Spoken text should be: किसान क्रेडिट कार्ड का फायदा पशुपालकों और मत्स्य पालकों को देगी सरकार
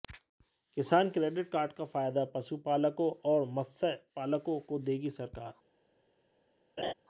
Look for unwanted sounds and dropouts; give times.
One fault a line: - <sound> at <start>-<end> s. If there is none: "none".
- laugh at 6.8-6.9 s